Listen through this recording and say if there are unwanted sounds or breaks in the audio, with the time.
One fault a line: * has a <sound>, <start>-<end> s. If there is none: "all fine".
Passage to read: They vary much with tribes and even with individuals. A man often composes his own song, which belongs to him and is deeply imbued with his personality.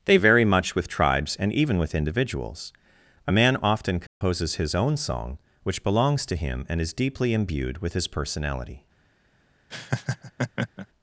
* has a dropout, 4.1-4.2 s
* has a laugh, 9.7-10.9 s